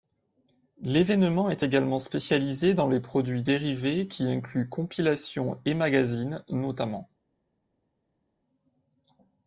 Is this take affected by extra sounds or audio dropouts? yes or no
no